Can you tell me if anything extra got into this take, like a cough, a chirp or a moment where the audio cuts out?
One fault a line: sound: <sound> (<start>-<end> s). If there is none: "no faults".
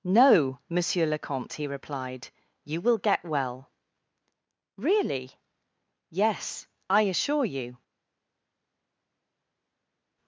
no faults